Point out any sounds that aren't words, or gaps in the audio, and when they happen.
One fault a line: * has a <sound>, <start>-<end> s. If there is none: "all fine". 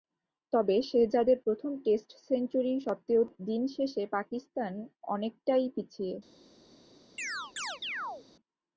* has a chirp, 7.2-8.3 s